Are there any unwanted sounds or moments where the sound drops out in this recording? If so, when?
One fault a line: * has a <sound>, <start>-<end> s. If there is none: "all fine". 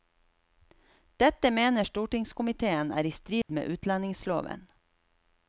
* has a dropout, 3.4-3.5 s